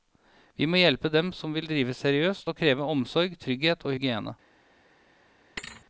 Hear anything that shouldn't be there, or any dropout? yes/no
yes